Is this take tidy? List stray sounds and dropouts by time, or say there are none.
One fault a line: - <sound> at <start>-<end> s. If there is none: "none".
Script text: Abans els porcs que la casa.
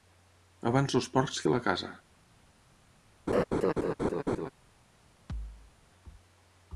- laugh at 3.3-4.5 s
- thud at 5.3-5.7 s